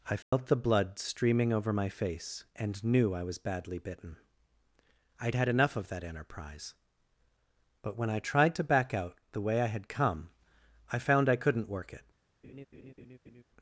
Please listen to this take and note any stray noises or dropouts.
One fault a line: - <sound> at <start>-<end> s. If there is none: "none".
- dropout at 0.2-0.3 s
- laugh at 12.4-13.4 s